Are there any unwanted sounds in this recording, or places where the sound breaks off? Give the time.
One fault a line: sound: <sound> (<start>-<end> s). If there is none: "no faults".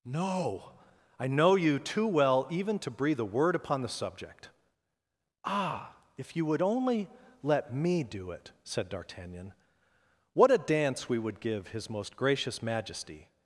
no faults